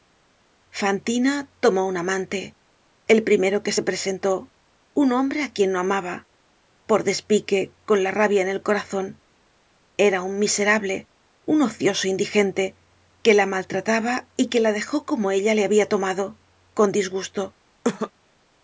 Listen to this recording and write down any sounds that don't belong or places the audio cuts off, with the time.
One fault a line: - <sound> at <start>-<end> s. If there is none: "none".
- cough at 17.8-18.1 s